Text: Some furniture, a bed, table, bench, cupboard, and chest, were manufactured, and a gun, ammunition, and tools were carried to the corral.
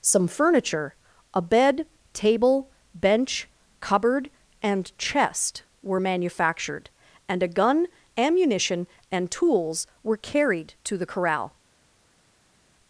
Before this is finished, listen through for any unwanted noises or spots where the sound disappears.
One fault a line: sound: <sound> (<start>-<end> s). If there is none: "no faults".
no faults